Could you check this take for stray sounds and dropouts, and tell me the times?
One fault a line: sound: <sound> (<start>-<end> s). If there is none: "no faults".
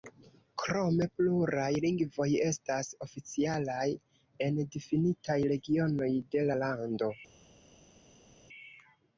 no faults